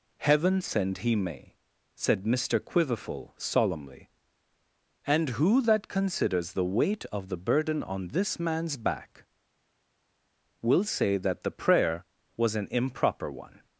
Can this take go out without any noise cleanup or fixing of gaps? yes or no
yes